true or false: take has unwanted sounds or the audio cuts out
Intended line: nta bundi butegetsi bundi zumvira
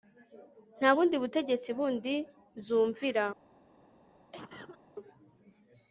true